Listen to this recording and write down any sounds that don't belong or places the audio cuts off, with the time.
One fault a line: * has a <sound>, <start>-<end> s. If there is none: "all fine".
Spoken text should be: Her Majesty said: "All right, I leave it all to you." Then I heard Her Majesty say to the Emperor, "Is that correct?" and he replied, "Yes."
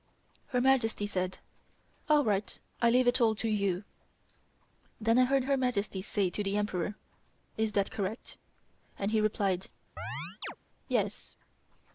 * has a chirp, 10.0-10.6 s